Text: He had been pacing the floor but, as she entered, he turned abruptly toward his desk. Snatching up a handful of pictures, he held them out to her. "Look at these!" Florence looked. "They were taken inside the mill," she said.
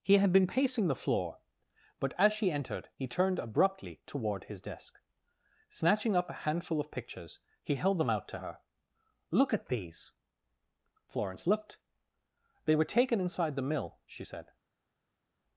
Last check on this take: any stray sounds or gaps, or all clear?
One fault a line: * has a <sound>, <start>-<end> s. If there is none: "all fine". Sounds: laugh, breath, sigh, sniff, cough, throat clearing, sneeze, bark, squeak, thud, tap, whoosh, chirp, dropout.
all fine